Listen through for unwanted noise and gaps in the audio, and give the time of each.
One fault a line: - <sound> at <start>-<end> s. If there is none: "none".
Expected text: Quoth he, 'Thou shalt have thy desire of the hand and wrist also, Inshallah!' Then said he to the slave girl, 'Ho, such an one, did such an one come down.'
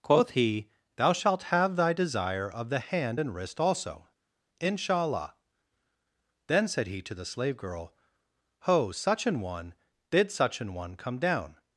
none